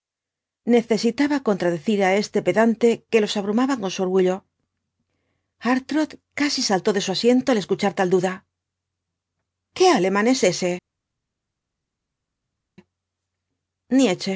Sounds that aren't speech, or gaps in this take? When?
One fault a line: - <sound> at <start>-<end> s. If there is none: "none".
none